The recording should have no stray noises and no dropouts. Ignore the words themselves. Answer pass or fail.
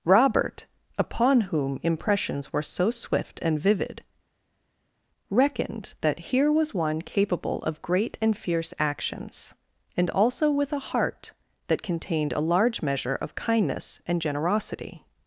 pass